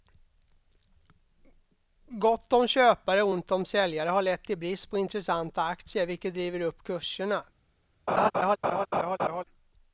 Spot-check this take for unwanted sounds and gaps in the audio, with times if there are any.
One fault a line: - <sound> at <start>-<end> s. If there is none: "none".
- laugh at 8.1-9.4 s